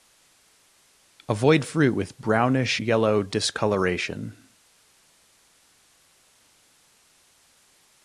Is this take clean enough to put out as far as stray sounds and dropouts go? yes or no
yes